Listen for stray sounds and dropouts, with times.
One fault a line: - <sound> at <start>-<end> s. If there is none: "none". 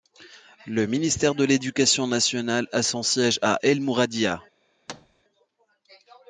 - thud at 4.9-5.2 s